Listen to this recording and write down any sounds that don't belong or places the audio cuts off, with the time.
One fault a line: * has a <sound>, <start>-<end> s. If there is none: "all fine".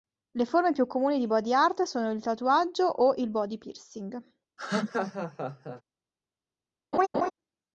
* has a laugh, 4.6-5.8 s
* has a laugh, 6.9-7.3 s